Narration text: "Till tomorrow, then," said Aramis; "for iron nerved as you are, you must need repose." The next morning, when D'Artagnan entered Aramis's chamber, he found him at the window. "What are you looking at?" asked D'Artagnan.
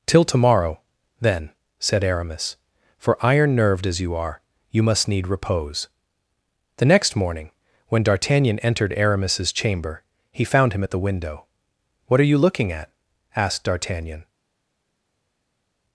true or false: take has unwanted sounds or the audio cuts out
false